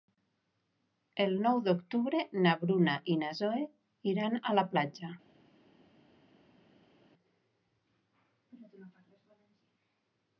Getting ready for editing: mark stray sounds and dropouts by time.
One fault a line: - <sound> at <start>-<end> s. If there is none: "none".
none